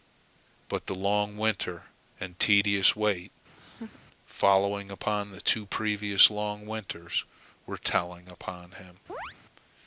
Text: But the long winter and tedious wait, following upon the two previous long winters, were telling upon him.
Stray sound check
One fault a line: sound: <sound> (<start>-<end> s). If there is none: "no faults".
sound: laugh (3.6-4.0 s)
sound: chirp (9.1-9.4 s)